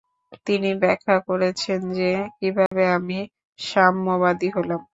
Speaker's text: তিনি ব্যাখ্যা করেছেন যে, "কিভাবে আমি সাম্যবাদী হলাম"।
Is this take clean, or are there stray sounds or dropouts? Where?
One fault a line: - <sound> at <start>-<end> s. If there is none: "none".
- dropout at 2.7-2.7 s